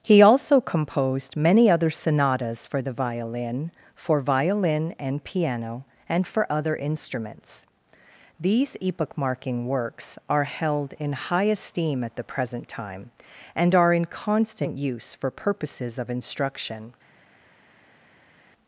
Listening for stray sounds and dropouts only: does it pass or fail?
pass